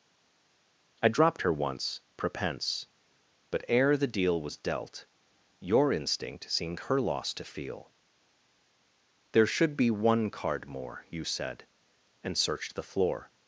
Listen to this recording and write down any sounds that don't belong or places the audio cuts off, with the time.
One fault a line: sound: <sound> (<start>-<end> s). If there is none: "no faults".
no faults